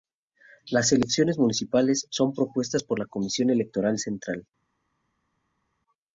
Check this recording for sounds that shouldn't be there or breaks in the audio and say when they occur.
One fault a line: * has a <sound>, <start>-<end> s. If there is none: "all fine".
all fine